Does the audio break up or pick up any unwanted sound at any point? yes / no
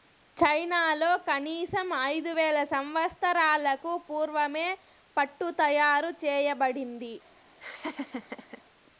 yes